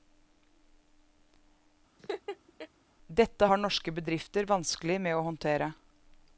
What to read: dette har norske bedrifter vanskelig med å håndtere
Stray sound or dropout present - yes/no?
yes